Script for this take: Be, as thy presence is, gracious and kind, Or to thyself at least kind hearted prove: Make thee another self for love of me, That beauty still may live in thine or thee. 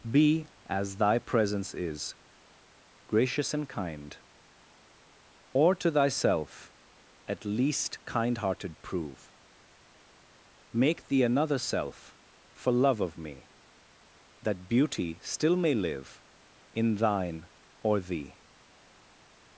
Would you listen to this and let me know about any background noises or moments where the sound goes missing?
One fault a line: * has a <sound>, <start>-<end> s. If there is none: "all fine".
all fine